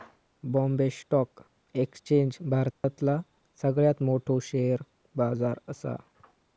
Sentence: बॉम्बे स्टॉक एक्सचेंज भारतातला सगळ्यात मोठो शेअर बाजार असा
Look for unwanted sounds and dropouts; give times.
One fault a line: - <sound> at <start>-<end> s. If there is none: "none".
- dropout at 2.7-2.8 s